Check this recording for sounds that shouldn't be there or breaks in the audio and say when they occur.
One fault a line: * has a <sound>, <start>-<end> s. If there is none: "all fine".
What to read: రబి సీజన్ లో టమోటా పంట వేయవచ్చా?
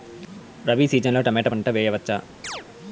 * has a chirp, 2.4-2.7 s